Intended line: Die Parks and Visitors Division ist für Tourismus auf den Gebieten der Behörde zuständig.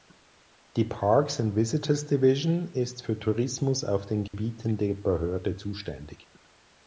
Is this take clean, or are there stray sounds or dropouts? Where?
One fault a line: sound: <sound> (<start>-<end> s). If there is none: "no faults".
sound: dropout (4.3-4.3 s)